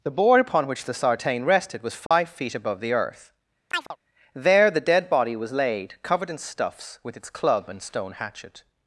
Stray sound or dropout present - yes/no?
yes